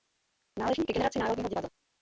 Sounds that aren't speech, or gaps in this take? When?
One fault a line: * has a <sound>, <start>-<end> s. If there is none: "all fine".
all fine